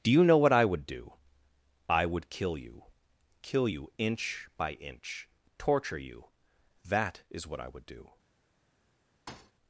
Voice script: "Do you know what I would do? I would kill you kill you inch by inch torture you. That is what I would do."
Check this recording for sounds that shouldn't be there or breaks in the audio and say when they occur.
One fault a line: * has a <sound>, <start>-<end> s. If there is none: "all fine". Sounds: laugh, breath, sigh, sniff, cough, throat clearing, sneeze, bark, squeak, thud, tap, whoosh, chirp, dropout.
* has a thud, 9.3-9.5 s